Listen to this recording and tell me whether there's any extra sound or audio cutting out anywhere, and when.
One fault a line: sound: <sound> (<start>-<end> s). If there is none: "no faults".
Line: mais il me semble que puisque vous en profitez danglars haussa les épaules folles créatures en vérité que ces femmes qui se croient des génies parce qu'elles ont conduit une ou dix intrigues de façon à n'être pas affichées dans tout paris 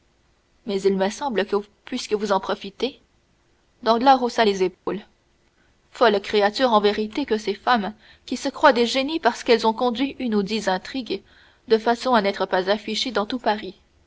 sound: dropout (4.7-4.9 s)